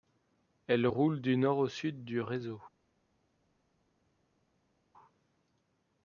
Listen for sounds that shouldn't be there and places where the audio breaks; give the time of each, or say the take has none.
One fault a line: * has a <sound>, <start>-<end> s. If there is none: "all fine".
all fine